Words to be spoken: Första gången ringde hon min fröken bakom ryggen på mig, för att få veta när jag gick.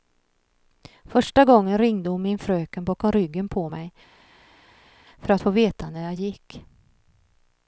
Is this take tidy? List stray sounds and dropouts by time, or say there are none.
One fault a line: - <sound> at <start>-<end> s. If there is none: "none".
none